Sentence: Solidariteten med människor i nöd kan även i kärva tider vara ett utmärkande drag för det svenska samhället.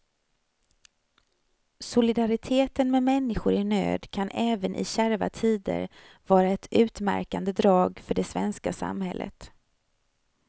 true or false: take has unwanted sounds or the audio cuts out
false